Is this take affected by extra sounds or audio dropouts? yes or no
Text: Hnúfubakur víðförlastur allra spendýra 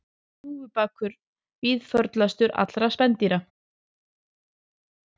no